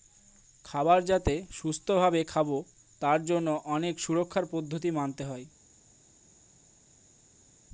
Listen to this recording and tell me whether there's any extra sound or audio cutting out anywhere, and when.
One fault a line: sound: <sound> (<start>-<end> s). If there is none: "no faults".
no faults